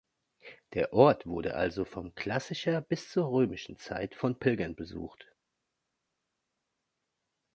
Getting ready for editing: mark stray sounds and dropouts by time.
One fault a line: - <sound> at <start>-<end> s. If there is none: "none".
none